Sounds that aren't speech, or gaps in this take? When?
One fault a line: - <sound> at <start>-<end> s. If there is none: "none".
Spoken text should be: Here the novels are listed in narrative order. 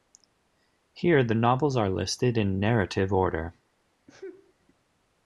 - sneeze at 4.1-4.5 s